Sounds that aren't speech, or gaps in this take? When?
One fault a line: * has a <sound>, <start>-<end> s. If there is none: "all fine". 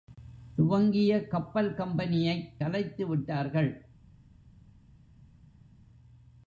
all fine